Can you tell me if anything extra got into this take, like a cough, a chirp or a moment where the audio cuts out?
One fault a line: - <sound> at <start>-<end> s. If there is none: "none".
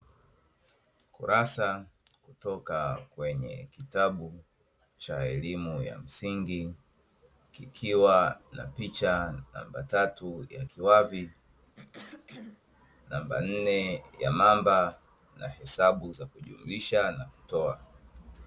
- throat clearing at 11.7-12.6 s